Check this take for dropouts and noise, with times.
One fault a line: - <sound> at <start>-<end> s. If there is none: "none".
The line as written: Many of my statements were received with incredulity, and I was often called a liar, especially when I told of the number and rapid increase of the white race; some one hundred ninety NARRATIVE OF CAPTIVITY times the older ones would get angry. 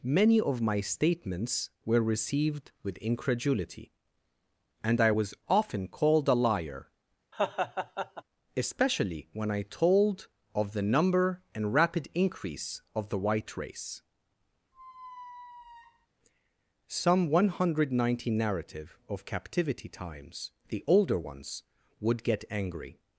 - laugh at 7.3-8.2 s
- squeak at 14.7-16.1 s